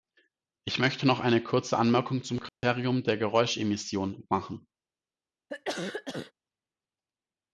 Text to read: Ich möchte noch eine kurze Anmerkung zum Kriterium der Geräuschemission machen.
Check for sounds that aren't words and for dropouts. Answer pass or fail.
fail